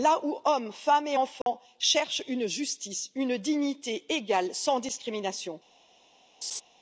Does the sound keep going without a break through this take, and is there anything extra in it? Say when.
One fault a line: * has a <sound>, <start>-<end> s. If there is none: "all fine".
* has a dropout, 1.4-1.5 s
* has a laugh, 6.4-6.6 s